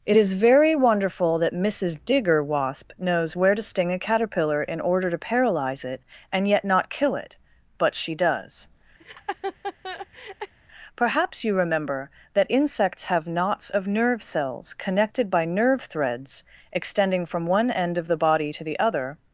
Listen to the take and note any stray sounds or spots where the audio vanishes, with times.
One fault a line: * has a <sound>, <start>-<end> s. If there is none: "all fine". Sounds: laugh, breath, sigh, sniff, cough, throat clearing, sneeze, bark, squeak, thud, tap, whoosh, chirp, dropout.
* has a laugh, 9.0-10.5 s